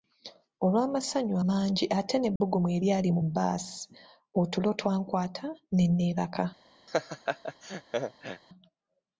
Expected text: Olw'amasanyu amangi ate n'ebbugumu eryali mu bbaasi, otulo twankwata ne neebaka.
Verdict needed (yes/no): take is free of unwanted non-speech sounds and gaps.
no